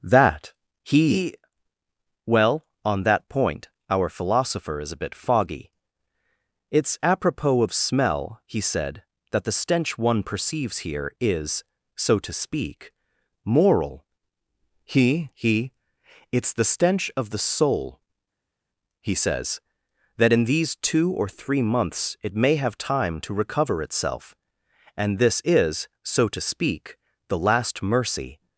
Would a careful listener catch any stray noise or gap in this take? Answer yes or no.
no